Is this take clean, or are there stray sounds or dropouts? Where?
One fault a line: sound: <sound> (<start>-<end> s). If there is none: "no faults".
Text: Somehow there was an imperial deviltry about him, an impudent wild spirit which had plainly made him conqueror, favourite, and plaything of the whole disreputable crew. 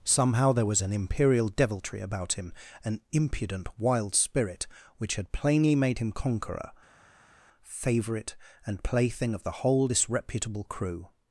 no faults